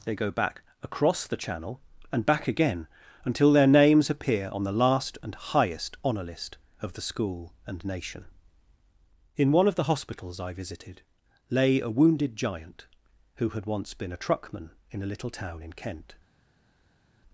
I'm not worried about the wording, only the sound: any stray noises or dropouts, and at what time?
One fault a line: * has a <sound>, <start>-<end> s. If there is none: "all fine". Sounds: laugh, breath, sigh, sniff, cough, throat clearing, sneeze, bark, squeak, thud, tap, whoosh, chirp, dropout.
all fine